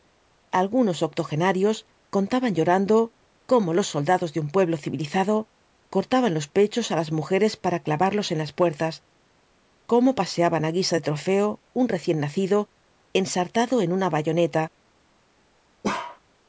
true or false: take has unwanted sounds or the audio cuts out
true